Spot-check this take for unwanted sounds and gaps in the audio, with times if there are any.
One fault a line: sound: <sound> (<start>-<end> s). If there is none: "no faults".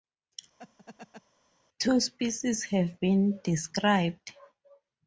sound: laugh (0.6-1.2 s)